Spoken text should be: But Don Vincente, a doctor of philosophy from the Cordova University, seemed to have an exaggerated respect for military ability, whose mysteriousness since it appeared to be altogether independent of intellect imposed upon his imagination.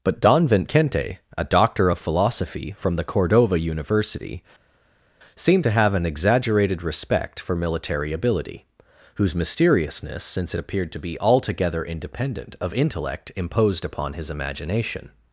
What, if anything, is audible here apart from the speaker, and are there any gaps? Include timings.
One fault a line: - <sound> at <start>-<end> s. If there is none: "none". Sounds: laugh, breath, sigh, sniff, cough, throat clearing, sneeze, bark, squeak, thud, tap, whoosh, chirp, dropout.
none